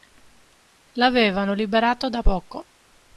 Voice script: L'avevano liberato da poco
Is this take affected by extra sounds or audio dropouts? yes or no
no